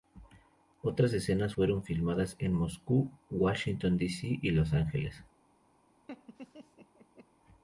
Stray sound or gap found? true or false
true